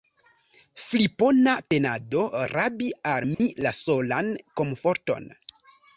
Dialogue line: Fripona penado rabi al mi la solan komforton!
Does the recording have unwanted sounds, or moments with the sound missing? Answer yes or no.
yes